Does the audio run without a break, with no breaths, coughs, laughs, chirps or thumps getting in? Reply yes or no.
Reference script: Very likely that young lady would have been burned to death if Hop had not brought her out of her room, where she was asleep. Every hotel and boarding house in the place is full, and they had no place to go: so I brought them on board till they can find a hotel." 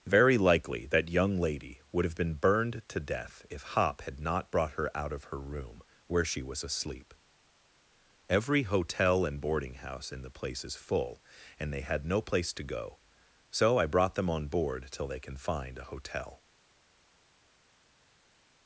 yes